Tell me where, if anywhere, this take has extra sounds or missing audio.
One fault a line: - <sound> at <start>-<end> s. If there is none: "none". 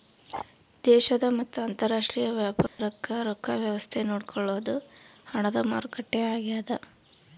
- dropout at 2.7-2.8 s